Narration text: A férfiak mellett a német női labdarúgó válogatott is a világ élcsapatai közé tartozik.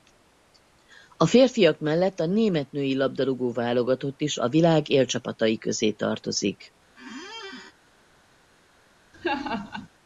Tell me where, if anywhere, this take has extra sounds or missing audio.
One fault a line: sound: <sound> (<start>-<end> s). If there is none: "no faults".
sound: squeak (7.0-7.7 s)
sound: laugh (9.1-9.9 s)